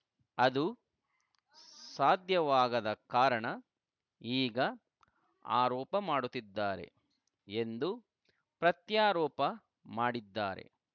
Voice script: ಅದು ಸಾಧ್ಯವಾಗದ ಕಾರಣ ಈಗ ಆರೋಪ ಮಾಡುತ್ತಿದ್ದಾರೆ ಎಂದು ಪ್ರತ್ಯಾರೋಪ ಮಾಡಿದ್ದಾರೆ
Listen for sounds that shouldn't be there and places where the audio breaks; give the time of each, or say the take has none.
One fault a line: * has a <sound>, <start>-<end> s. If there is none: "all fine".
all fine